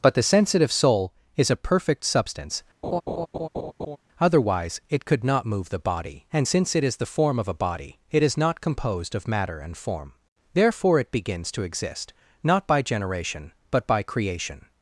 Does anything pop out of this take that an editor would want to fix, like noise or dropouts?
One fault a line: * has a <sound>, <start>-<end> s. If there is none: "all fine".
* has a laugh, 2.8-4.0 s